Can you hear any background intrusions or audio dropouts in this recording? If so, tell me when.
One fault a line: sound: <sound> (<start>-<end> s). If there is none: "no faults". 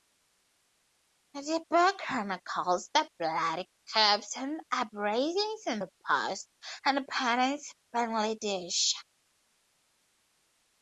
no faults